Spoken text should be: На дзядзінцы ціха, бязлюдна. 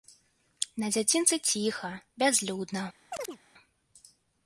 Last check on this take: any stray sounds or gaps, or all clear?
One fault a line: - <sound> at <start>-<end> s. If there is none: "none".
- chirp at 3.1-3.4 s